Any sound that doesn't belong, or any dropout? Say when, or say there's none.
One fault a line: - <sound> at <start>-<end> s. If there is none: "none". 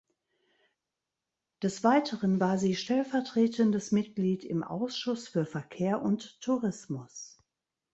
none